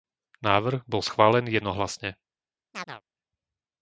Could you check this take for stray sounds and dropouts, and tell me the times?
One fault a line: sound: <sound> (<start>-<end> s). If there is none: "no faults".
sound: chirp (2.7-3.0 s)